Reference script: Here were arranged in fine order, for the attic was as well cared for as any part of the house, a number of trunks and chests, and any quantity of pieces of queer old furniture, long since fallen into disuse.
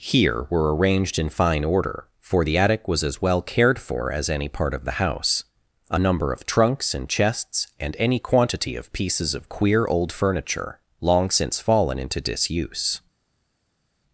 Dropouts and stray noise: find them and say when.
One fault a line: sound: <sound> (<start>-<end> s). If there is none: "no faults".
no faults